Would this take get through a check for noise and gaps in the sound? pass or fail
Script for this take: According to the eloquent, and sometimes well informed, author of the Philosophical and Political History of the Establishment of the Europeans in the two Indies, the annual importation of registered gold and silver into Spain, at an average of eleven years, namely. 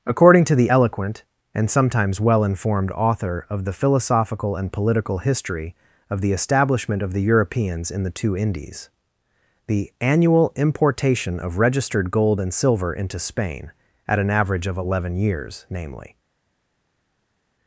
pass